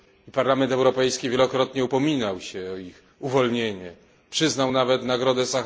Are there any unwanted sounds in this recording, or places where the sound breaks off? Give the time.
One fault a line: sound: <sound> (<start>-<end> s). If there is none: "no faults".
no faults